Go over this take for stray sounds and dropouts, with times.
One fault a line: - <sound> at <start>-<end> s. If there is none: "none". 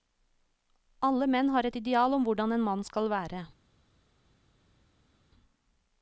none